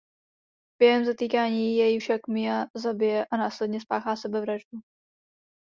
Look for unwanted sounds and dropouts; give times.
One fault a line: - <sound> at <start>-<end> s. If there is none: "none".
none